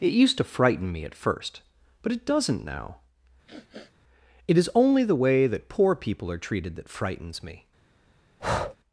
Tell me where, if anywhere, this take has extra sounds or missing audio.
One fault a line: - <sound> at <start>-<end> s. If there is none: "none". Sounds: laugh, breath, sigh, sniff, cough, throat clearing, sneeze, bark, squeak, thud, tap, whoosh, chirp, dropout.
- sniff at 3.5-3.9 s
- breath at 8.4-8.8 s